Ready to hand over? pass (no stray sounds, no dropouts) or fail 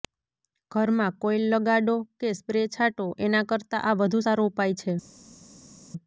pass